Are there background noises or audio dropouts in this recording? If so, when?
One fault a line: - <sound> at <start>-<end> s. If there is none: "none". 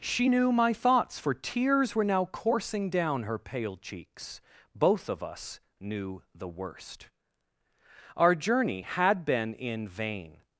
none